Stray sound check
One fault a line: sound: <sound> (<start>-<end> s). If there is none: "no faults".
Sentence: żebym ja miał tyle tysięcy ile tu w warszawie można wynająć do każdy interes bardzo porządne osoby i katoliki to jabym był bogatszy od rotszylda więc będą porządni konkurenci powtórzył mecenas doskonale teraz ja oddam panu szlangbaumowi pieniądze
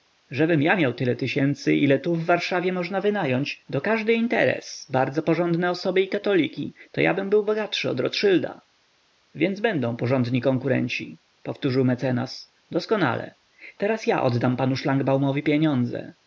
no faults